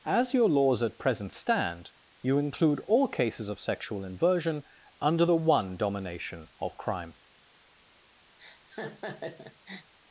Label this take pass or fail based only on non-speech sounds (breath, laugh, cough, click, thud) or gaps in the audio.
fail